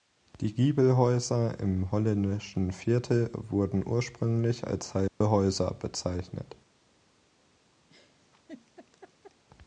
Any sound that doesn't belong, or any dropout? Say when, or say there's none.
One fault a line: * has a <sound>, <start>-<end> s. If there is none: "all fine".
* has a dropout, 5.1-5.2 s
* has a laugh, 7.9-9.4 s